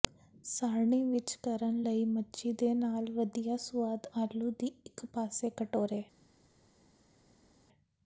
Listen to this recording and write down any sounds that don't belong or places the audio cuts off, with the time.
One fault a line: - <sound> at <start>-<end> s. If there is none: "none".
none